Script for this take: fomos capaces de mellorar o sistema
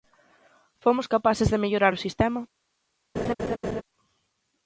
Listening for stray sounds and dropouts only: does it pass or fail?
fail